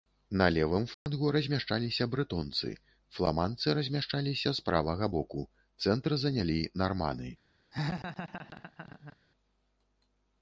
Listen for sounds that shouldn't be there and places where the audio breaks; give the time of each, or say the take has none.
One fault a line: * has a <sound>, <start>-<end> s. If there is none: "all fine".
* has a dropout, 0.9-1.1 s
* has a laugh, 7.7-9.2 s